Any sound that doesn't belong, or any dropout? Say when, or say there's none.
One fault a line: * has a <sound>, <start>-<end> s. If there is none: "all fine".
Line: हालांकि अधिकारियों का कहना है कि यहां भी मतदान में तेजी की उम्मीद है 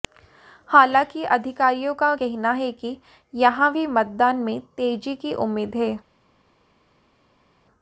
all fine